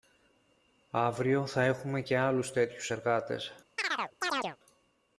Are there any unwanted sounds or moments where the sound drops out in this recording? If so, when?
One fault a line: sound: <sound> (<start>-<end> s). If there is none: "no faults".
sound: chirp (3.8-4.6 s)